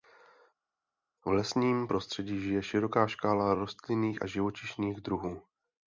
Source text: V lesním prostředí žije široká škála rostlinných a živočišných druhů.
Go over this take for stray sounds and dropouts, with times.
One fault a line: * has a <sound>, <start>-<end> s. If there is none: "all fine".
all fine